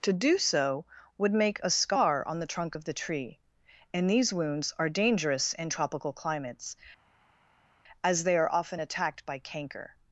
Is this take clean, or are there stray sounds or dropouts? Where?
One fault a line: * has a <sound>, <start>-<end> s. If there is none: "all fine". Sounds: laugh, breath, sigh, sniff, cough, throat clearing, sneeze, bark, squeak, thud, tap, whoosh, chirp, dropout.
all fine